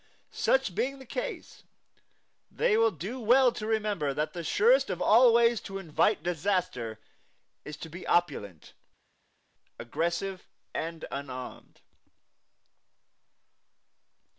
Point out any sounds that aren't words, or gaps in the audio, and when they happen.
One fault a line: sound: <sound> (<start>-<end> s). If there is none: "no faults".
no faults